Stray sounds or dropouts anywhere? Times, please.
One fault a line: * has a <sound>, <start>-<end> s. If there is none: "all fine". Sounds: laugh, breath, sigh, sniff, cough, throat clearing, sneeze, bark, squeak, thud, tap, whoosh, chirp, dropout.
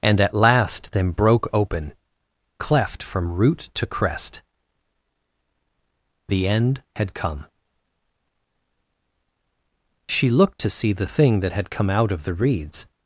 all fine